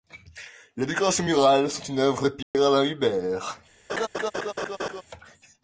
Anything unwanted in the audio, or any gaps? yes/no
yes